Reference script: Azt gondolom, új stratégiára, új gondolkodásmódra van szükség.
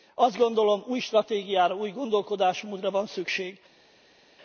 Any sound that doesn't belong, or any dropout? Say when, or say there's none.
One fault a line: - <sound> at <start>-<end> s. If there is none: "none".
none